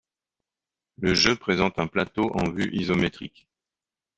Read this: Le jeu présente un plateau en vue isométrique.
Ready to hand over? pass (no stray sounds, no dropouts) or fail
pass